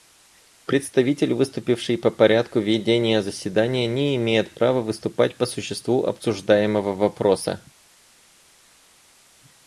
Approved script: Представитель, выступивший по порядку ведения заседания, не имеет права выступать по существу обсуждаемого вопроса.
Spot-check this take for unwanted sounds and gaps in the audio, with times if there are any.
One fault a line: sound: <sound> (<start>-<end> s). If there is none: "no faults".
no faults